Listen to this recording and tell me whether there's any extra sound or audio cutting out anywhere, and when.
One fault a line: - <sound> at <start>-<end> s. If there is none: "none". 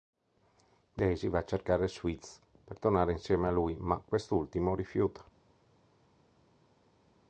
none